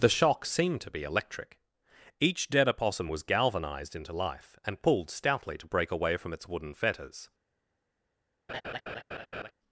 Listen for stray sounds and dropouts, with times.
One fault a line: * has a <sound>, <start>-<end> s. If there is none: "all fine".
* has a laugh, 8.5-9.5 s